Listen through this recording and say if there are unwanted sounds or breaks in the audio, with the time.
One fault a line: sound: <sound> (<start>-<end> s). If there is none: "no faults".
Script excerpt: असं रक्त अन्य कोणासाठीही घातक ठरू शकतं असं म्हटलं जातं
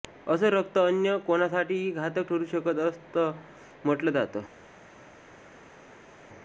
no faults